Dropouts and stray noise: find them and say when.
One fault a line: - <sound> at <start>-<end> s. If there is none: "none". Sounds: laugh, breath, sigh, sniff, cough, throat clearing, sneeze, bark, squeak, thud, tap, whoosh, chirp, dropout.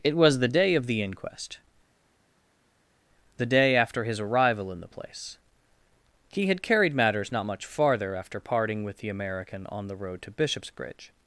none